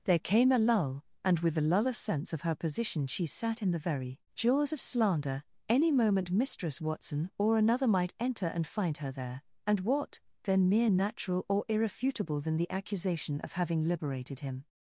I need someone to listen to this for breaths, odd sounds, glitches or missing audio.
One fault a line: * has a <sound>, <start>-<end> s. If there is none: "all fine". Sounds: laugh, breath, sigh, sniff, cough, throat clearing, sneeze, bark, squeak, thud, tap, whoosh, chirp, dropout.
all fine